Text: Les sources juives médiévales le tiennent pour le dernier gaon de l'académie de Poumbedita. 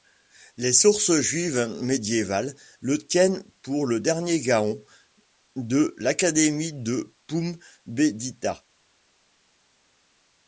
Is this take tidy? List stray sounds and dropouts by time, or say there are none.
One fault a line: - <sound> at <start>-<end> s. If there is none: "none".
none